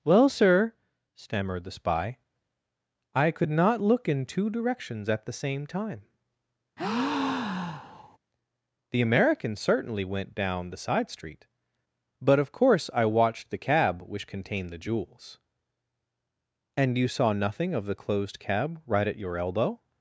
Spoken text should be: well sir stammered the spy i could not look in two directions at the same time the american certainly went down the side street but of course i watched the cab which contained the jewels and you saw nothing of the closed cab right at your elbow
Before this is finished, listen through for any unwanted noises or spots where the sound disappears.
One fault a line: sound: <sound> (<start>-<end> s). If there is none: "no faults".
sound: breath (6.8-8.2 s)